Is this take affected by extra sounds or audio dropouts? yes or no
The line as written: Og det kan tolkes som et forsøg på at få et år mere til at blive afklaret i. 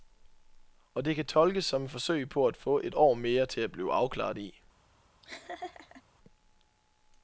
yes